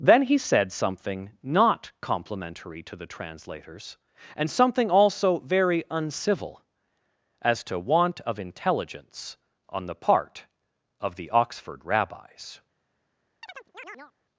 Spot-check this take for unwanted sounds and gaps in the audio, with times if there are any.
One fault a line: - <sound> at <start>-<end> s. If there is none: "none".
- chirp at 13.4-14.1 s